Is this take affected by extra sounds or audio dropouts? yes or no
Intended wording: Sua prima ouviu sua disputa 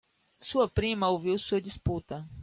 no